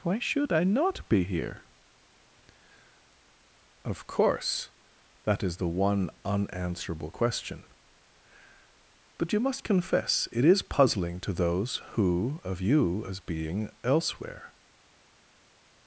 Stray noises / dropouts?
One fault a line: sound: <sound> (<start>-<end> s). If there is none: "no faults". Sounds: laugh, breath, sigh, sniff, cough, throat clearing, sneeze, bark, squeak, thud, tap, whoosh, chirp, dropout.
no faults